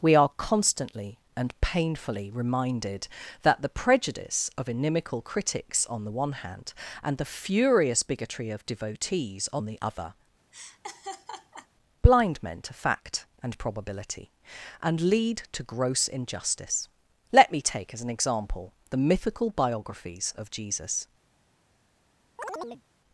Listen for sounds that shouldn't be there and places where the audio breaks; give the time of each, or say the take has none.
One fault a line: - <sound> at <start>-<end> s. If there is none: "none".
- laugh at 10.5-11.7 s
- chirp at 22.4-22.8 s